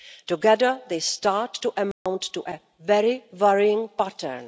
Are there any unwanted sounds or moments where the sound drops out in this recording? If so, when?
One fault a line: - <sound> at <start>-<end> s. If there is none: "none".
- dropout at 1.9-2.1 s